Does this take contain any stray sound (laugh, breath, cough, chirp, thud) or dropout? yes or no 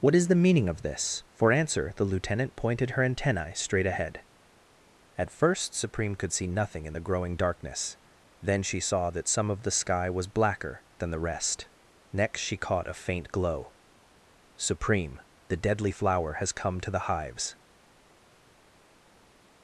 no